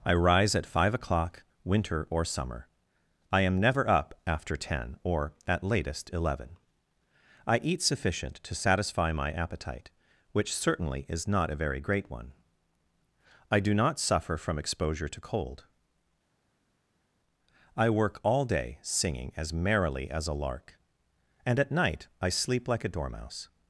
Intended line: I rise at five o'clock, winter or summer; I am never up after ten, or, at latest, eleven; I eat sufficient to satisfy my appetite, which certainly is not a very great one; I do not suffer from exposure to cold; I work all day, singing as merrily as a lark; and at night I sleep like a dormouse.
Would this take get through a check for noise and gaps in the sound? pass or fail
pass